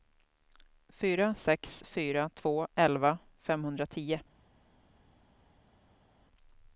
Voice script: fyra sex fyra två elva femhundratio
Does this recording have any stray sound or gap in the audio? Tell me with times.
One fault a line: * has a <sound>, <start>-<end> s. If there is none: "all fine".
all fine